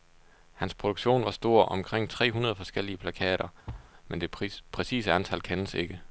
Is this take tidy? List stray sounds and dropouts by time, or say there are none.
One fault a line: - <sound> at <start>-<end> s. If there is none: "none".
- thud at 3.7-3.9 s